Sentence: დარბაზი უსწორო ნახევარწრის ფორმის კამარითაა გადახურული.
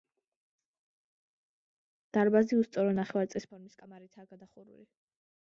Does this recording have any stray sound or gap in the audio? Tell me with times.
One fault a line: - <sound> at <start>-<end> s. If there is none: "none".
none